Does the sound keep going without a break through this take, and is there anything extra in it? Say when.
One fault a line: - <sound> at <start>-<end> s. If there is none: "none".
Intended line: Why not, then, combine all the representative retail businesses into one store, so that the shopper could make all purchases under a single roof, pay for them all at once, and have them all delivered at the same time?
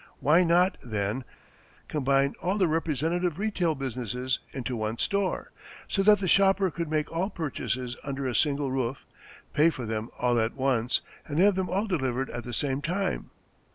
none